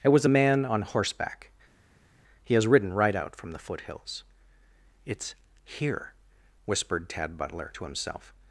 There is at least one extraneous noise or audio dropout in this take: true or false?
false